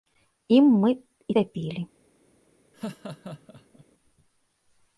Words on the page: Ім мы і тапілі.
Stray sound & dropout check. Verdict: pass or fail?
fail